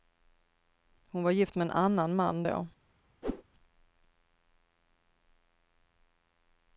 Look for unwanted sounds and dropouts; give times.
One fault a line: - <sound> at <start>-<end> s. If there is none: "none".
- whoosh at 3.2-3.4 s